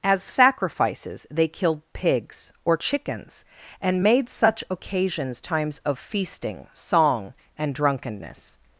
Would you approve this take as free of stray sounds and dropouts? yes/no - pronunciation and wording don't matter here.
yes